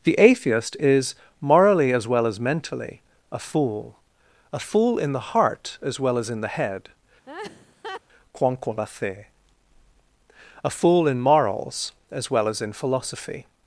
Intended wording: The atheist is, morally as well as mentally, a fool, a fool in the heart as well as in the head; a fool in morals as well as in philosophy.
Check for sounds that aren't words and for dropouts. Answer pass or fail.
fail